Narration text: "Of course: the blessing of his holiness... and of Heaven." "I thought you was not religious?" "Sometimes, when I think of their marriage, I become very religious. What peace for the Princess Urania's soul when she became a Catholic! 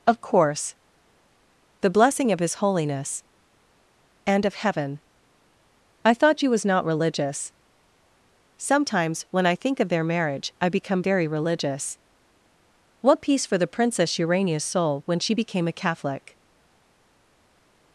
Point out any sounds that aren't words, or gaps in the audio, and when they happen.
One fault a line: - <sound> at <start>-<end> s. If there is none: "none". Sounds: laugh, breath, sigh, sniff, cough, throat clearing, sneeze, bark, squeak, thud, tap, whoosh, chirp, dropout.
none